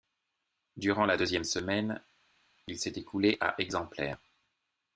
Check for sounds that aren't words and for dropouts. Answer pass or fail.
pass